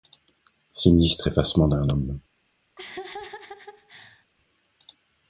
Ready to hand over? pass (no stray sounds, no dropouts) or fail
fail